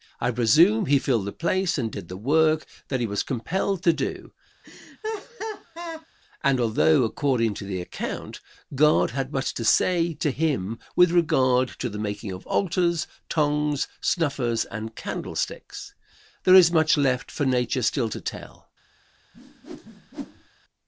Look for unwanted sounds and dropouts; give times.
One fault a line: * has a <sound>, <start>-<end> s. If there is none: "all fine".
* has a laugh, 4.6-6.1 s
* has a whoosh, 19.3-20.5 s